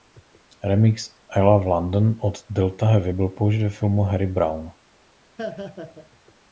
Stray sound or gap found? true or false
true